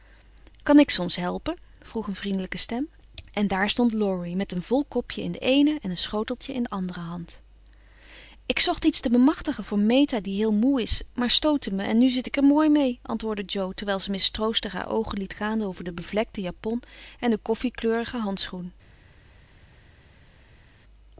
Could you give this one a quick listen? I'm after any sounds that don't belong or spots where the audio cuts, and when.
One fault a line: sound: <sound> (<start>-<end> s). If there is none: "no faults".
no faults